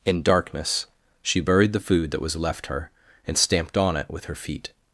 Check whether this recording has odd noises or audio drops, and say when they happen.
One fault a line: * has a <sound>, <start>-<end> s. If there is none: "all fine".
all fine